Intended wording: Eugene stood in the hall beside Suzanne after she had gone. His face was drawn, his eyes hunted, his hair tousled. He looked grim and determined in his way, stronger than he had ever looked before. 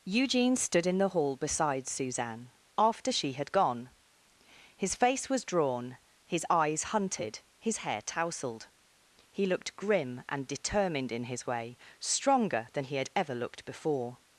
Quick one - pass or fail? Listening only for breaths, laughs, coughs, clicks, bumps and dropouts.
pass